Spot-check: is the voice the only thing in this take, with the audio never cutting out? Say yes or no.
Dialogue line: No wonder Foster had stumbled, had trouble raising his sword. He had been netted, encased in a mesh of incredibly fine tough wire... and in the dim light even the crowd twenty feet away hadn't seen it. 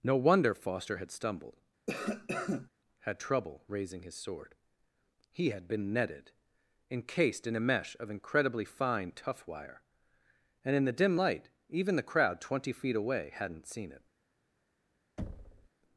no